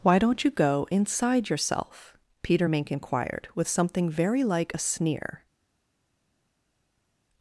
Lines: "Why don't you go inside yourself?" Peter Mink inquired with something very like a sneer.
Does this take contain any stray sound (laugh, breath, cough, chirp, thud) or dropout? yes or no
no